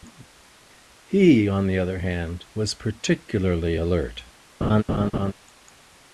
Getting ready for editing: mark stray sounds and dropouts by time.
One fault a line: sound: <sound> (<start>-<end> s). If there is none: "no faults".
sound: laugh (4.6-5.3 s)